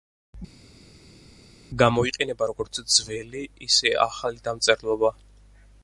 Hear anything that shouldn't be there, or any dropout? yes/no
no